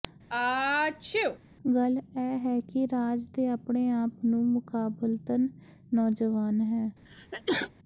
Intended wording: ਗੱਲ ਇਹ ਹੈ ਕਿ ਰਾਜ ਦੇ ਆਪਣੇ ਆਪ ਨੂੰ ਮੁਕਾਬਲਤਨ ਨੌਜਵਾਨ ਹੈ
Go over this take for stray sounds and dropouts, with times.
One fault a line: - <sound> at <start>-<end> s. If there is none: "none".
- sneeze at 0.3-1.4 s
- sneeze at 7.1-7.7 s